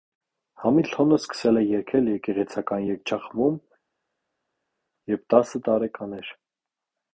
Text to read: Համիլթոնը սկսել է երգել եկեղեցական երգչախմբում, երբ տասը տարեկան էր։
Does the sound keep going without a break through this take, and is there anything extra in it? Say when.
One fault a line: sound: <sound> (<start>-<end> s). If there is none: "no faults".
no faults